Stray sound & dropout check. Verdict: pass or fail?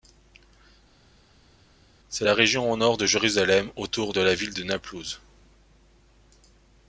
pass